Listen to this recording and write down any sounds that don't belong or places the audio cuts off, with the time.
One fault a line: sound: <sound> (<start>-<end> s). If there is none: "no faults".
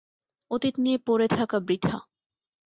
no faults